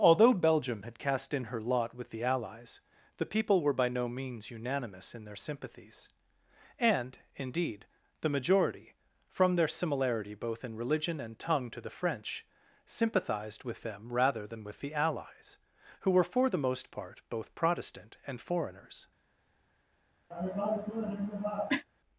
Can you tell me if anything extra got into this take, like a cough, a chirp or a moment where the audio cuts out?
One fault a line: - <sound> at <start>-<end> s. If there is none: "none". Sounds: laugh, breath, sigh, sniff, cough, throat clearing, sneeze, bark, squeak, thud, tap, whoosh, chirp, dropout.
- cough at 20.3-21.9 s